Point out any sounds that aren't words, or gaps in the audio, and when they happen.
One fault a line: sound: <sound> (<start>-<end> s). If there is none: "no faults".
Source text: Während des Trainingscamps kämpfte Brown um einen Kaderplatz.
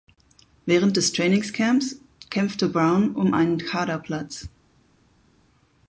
no faults